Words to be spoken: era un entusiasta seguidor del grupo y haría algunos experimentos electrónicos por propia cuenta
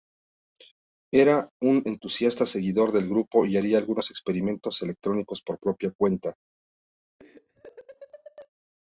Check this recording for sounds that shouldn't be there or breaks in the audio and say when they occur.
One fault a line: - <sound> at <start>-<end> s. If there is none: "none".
- laugh at 7.2-8.5 s